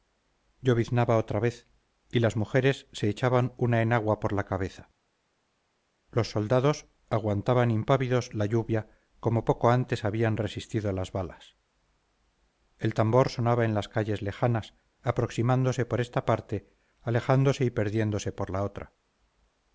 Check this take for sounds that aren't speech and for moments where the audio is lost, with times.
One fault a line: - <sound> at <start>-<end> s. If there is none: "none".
none